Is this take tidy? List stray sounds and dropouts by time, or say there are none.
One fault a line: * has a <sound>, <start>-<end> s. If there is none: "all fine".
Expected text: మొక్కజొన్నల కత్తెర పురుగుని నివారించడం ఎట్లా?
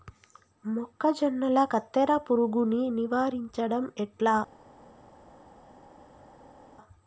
all fine